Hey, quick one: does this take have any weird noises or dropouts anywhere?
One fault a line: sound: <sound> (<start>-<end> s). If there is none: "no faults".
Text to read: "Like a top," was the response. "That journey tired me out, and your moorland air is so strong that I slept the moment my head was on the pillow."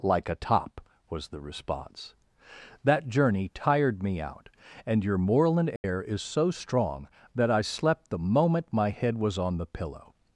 sound: dropout (5.8-5.8 s)